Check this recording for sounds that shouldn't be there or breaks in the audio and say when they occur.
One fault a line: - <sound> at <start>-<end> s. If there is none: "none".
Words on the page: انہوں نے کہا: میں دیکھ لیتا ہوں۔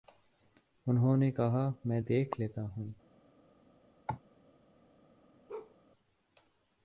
- cough at 4.1-4.2 s
- bark at 5.5-5.8 s